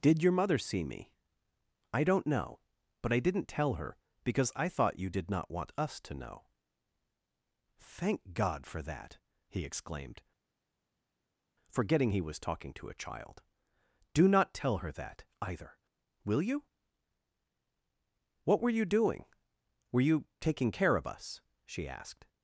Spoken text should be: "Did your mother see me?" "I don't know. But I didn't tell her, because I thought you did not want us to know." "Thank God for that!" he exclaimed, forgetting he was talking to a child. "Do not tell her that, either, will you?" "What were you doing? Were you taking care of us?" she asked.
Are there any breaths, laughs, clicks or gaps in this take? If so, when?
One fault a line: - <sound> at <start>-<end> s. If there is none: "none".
none